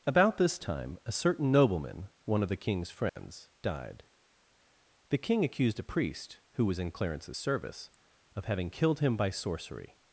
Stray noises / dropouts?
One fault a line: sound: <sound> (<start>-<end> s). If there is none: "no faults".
sound: dropout (3.1-3.2 s)